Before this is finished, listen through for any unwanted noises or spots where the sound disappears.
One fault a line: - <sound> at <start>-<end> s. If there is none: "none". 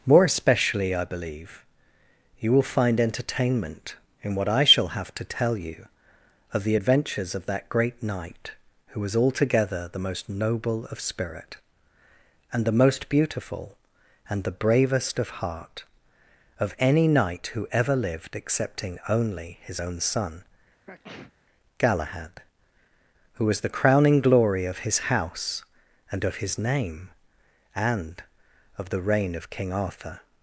- sneeze at 20.9-21.3 s